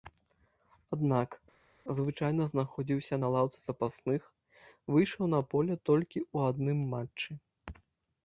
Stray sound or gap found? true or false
false